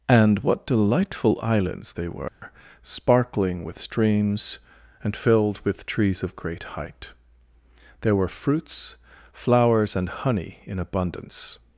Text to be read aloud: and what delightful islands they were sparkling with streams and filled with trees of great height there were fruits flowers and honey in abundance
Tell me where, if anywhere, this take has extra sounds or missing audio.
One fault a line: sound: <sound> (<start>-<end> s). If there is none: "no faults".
sound: dropout (2.3-2.4 s)